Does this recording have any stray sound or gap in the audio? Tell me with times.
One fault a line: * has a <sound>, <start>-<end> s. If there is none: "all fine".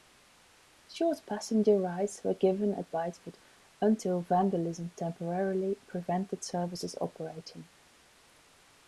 all fine